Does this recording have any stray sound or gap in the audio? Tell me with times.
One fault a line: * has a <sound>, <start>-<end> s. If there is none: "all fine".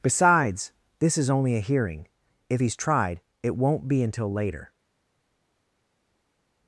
all fine